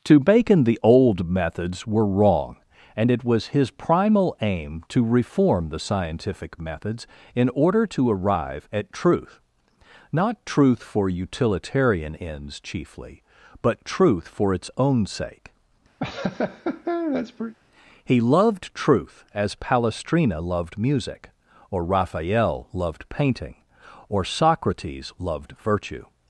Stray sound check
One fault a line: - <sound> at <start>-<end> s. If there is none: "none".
- laugh at 16.0-17.5 s